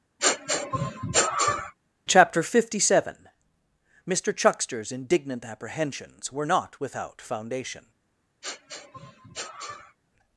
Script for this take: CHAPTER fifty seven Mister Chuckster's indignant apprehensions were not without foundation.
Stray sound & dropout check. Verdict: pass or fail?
fail